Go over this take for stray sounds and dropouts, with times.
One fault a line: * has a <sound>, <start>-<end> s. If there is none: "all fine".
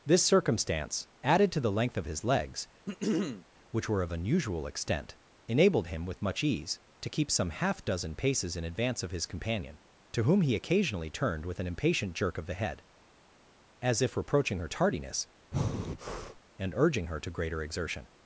* has a throat clearing, 2.9-3.5 s
* has a breath, 15.5-16.4 s